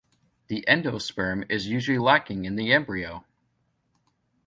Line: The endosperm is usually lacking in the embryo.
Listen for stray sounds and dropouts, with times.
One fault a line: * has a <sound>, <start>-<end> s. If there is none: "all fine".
all fine